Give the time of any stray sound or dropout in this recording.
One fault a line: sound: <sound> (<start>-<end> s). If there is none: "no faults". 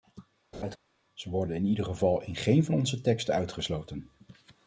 sound: laugh (0.5-0.8 s)